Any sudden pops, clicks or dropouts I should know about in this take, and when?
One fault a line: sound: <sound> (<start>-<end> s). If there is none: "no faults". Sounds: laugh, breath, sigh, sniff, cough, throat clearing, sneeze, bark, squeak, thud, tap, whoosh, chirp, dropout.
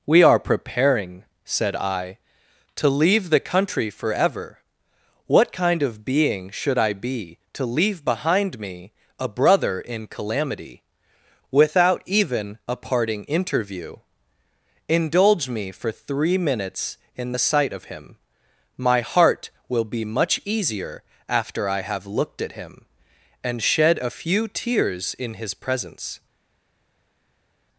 no faults